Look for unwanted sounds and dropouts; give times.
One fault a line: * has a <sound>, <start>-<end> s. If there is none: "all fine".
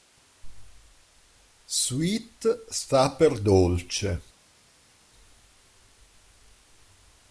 all fine